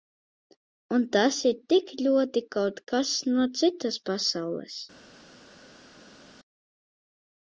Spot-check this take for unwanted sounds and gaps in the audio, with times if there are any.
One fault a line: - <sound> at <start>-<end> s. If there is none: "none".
none